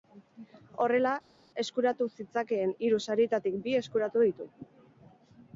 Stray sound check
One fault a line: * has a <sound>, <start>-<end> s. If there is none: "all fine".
all fine